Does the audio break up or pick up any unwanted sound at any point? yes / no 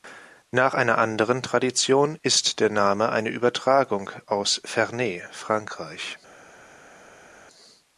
no